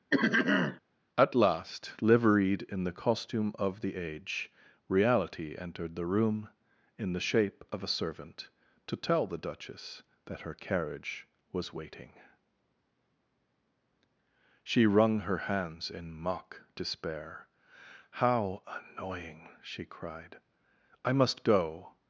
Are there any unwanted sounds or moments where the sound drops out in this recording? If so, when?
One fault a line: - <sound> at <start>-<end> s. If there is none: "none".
- throat clearing at 0.1-0.8 s